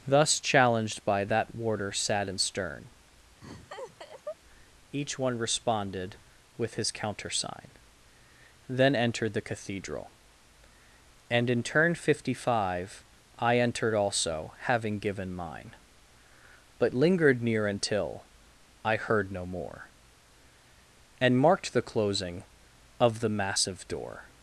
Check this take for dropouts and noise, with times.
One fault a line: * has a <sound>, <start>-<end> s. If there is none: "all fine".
* has a laugh, 3.4-4.4 s